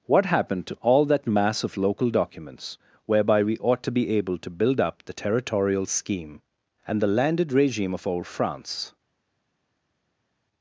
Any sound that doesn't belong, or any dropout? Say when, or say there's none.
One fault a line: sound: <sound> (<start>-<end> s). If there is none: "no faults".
no faults